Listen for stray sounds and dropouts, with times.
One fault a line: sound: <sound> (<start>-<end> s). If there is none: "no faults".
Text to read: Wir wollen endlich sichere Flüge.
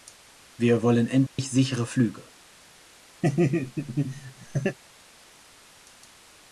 sound: dropout (1.3-1.4 s)
sound: laugh (3.2-4.8 s)